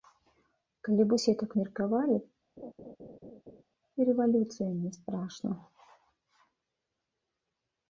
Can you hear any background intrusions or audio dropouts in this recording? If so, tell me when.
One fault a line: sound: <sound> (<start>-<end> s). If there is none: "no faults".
sound: laugh (2.6-3.6 s)